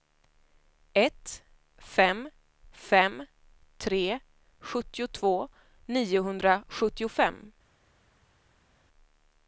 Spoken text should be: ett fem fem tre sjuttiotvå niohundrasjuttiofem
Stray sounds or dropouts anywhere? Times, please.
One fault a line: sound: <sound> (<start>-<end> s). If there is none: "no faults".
no faults